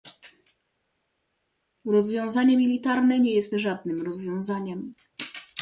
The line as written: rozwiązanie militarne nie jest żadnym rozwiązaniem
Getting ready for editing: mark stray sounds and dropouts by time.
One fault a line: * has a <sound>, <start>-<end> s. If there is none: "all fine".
all fine